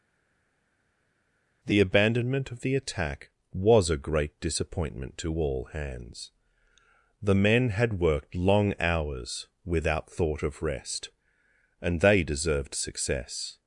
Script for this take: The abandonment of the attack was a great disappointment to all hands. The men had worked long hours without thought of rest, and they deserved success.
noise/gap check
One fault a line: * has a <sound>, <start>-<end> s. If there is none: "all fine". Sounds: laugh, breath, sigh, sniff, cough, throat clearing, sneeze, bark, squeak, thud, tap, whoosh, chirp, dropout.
all fine